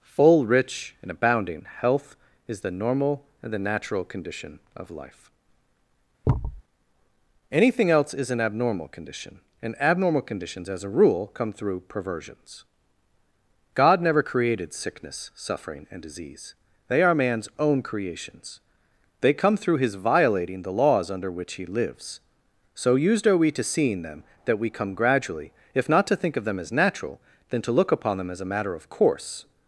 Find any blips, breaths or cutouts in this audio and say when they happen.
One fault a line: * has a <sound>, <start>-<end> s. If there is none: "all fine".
* has a thud, 6.2-6.6 s